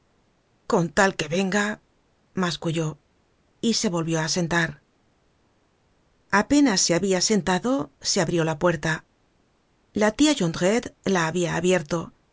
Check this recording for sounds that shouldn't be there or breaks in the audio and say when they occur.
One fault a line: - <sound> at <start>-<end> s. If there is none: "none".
none